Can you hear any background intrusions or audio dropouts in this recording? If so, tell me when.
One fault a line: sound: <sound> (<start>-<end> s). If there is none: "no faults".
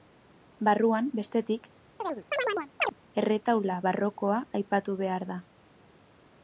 sound: chirp (2.0-2.9 s)